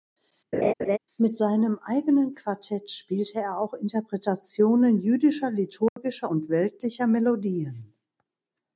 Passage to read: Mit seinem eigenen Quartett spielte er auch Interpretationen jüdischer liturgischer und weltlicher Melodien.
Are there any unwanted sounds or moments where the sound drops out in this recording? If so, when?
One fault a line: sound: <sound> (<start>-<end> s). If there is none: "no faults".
sound: laugh (0.5-1.0 s)
sound: dropout (5.9-6.0 s)